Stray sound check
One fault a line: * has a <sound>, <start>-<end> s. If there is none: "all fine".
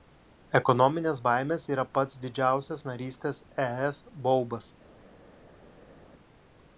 all fine